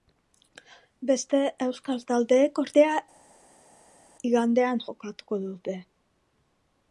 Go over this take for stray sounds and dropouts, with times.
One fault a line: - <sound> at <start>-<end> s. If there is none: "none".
none